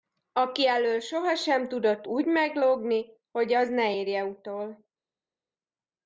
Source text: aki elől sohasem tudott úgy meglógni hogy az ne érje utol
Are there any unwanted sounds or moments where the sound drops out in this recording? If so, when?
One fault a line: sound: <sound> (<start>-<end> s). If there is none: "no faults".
no faults